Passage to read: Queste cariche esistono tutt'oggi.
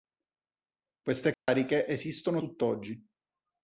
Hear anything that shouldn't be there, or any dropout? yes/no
yes